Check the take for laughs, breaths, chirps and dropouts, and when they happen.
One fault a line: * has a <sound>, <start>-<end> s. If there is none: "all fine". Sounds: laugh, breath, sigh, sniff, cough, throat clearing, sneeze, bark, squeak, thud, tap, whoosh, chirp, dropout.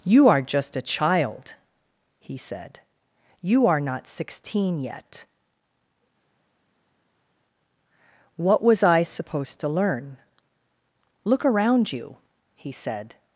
all fine